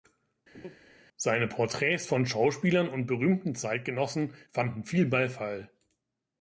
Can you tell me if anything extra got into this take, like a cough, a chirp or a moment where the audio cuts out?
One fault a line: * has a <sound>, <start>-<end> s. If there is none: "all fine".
* has a laugh, 0.5-0.8 s